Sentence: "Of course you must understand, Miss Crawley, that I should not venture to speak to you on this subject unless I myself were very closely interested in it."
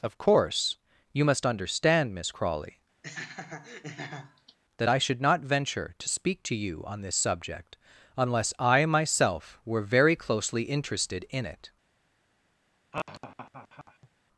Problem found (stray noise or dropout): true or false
true